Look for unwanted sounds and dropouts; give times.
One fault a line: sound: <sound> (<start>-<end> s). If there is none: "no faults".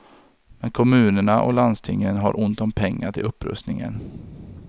no faults